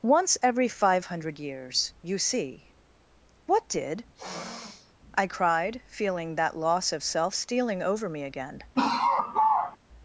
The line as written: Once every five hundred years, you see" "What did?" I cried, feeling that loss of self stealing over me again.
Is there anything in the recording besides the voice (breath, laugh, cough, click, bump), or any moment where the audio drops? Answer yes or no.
yes